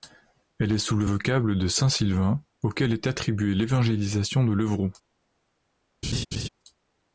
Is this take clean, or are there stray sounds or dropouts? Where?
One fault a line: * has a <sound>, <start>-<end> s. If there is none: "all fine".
* has a laugh, 6.0-6.5 s